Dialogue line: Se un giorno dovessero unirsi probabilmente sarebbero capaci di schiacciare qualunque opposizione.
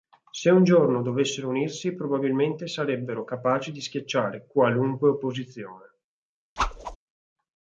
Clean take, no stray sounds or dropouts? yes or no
no